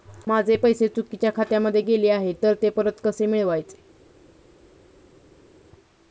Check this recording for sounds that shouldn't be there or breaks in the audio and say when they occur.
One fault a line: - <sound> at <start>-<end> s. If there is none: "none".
none